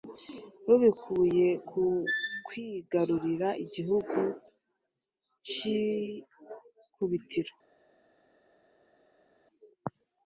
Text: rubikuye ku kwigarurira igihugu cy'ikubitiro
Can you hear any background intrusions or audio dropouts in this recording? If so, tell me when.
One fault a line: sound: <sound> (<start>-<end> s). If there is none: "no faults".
no faults